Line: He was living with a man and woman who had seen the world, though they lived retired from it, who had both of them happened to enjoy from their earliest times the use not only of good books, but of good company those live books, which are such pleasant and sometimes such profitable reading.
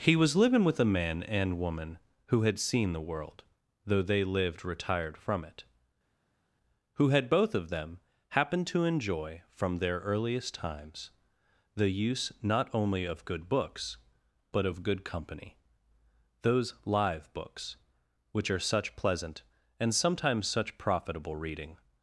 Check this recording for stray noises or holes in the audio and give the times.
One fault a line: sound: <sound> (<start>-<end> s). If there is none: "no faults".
no faults